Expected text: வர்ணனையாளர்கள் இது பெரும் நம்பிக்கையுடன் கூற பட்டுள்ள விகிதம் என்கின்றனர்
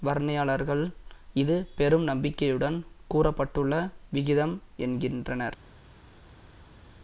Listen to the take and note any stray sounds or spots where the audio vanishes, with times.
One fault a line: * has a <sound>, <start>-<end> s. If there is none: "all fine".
all fine